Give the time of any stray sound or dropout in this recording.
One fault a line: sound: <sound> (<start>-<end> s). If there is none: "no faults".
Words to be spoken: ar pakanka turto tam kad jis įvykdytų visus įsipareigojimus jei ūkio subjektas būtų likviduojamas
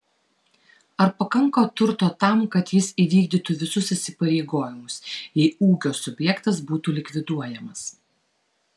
no faults